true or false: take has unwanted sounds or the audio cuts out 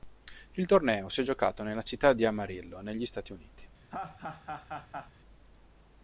true